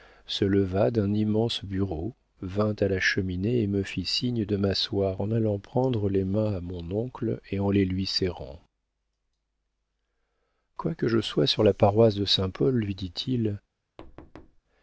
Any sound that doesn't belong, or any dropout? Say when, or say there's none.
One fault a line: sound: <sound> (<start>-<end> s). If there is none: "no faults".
sound: thud (14.0-14.6 s)